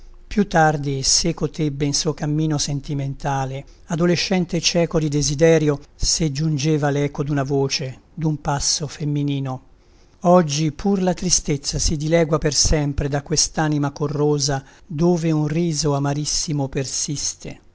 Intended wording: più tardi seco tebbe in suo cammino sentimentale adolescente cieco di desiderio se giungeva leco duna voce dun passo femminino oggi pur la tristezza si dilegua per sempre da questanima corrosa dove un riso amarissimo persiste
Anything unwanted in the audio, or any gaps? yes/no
no